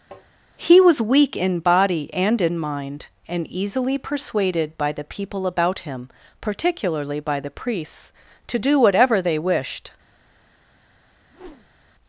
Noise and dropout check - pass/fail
fail